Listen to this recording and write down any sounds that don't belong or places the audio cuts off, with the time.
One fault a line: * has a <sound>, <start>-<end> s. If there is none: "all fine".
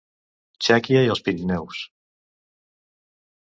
all fine